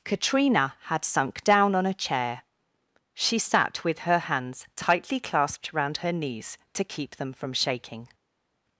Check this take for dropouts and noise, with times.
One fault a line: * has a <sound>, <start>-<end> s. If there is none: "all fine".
all fine